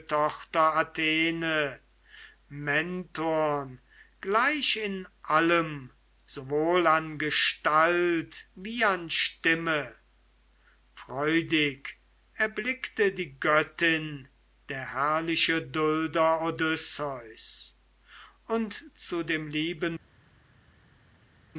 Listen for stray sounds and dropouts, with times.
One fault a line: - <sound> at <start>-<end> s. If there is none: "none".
none